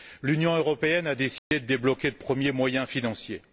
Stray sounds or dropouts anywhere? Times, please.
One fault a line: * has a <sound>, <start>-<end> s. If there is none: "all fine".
* has a dropout, 1.4-1.5 s